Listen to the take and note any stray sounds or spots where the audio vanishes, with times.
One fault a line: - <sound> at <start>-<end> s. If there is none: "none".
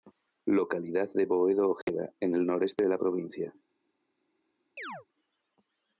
- dropout at 1.8-1.9 s
- chirp at 4.8-5.1 s